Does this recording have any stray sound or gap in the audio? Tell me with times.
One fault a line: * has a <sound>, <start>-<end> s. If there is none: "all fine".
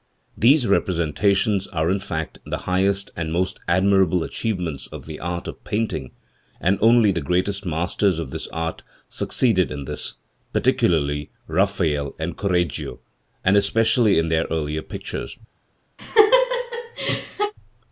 * has a laugh, 16.0-17.5 s